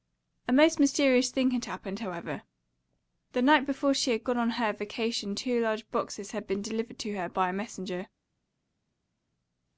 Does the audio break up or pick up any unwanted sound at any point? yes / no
no